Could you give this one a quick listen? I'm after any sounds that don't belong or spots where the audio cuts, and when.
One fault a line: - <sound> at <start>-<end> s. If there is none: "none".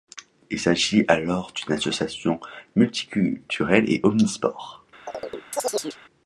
- chirp at 5.1-6.0 s